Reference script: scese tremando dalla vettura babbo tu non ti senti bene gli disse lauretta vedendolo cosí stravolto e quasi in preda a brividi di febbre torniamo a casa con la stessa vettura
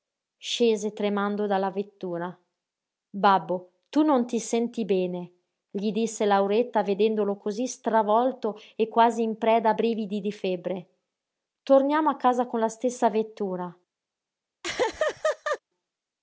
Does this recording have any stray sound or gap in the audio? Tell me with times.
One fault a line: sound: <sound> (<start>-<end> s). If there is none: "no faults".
sound: laugh (14.6-15.6 s)